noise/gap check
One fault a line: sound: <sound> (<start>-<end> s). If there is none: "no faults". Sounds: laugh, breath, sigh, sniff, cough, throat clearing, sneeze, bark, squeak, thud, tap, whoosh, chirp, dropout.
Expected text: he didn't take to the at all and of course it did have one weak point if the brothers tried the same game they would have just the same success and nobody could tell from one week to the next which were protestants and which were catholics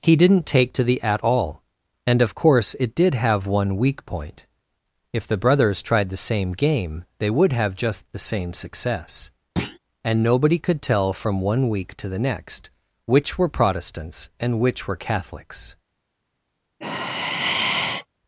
sound: thud (9.6-9.8 s)
sound: sigh (16.8-18.1 s)